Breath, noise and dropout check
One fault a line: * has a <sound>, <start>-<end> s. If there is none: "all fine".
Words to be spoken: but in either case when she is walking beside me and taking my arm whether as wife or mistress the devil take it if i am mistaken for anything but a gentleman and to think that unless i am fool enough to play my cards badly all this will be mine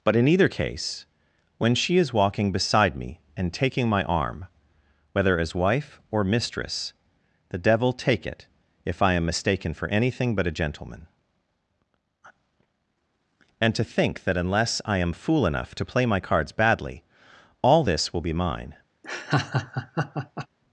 * has a laugh, 19.0-20.5 s